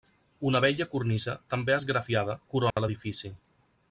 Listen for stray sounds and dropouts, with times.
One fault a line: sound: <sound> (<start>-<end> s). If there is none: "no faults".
sound: dropout (2.7-2.8 s)